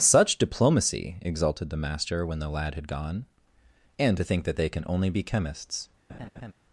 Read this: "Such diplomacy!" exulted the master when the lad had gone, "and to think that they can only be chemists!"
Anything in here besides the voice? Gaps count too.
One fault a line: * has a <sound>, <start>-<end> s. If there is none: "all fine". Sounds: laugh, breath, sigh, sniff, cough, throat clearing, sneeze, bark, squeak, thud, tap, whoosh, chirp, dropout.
* has a laugh, 6.1-6.5 s